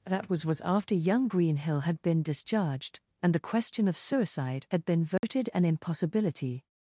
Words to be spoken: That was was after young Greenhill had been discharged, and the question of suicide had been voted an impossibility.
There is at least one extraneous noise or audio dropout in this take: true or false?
true